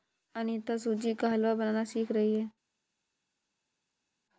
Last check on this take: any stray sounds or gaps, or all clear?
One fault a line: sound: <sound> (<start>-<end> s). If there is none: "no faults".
no faults